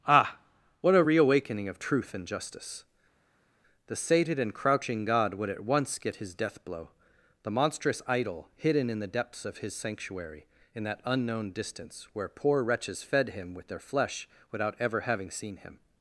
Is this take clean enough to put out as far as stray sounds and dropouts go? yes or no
yes